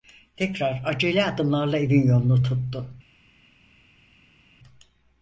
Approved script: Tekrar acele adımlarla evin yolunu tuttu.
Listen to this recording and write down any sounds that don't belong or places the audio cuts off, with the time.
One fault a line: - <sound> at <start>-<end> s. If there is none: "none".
none